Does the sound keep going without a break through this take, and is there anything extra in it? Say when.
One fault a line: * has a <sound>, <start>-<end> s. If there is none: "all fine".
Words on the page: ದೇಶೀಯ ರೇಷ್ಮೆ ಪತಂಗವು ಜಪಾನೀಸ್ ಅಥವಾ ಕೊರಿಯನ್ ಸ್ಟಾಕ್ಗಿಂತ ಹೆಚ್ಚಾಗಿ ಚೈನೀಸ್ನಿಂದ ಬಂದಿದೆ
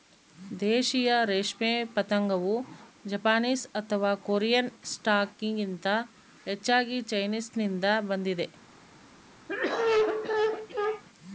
* has a cough, 9.5-11.0 s